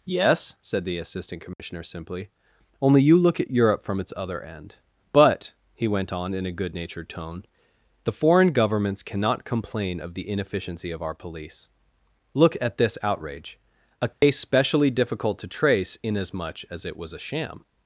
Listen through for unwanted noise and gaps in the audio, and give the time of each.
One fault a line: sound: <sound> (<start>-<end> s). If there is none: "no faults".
sound: dropout (1.5-1.6 s)
sound: dropout (14.1-14.2 s)